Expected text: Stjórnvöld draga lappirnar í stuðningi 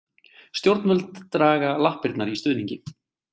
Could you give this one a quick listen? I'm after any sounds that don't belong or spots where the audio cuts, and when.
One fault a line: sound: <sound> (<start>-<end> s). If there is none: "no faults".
no faults